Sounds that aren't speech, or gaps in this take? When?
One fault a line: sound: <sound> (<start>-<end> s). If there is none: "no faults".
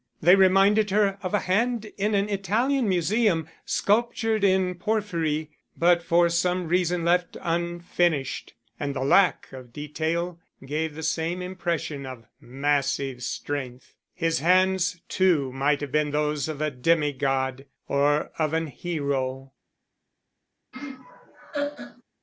sound: laugh (20.7-22.0 s)